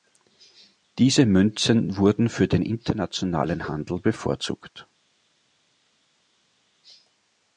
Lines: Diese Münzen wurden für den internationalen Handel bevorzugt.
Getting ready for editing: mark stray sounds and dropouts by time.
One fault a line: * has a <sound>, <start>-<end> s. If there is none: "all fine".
all fine